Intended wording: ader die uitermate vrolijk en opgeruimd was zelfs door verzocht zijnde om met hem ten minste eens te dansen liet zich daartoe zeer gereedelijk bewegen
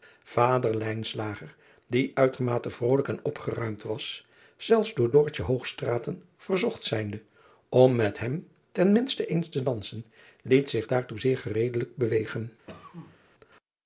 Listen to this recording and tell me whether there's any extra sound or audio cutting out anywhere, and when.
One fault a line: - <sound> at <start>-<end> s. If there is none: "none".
- cough at 12.7-13.2 s